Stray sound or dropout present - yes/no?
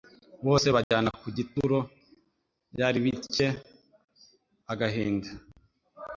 yes